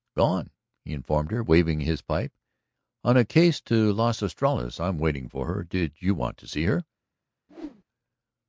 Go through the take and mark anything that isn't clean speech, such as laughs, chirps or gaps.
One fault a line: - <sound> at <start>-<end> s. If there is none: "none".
- whoosh at 7.5-7.8 s